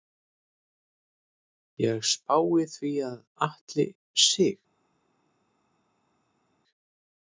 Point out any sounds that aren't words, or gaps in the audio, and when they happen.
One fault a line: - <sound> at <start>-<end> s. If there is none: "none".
none